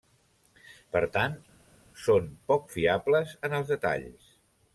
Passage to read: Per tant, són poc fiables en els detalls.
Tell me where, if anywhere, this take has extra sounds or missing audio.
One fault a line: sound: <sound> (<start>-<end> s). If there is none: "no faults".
no faults